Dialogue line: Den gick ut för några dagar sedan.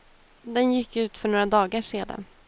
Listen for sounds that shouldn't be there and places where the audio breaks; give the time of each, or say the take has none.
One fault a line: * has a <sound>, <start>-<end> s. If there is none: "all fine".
all fine